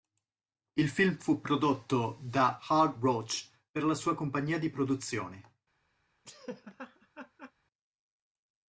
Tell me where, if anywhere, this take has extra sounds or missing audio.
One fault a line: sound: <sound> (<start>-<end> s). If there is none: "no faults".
sound: laugh (6.2-7.5 s)